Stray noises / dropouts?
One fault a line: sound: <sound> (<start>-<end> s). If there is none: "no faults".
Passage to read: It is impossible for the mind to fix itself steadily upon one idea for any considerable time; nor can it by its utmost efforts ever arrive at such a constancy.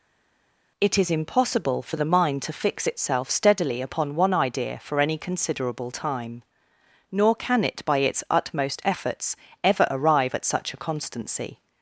no faults